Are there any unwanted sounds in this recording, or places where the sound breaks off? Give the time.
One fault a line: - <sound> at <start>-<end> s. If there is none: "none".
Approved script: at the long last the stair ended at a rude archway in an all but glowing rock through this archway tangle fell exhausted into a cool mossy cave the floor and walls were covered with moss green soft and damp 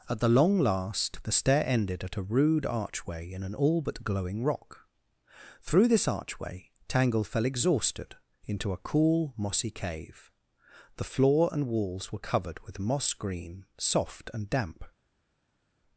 none